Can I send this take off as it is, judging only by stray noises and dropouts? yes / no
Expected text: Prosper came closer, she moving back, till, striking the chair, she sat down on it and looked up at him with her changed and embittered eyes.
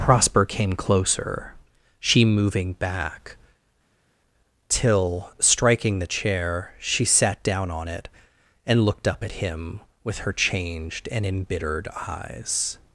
yes